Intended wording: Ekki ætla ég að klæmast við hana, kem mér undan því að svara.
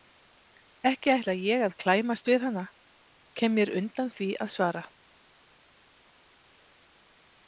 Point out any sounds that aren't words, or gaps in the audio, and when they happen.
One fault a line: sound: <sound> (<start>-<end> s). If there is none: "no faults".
no faults